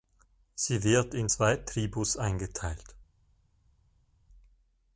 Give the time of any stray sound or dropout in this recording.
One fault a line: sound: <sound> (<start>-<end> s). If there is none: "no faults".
no faults